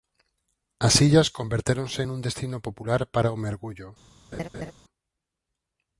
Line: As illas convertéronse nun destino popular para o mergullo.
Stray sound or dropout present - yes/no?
yes